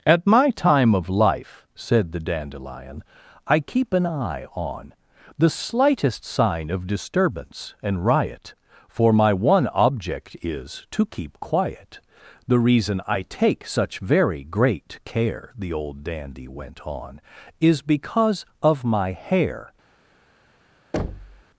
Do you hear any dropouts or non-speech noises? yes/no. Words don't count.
yes